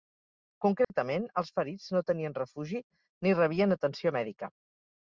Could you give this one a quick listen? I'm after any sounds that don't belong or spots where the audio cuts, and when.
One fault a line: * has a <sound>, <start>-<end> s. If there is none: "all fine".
* has a dropout, 0.8-0.9 s